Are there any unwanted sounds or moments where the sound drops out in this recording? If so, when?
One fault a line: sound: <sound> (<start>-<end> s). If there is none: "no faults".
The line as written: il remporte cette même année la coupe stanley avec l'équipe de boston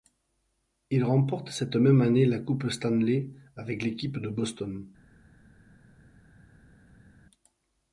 no faults